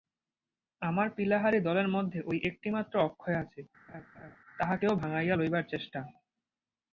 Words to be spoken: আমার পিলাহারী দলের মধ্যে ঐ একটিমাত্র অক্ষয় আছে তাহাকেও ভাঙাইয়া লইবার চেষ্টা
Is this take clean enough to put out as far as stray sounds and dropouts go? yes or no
no